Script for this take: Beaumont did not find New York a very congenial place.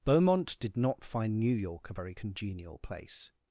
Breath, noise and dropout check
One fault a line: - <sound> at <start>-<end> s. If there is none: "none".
none